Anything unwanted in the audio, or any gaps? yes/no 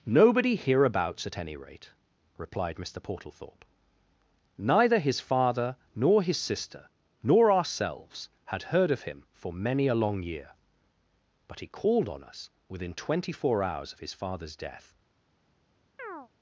yes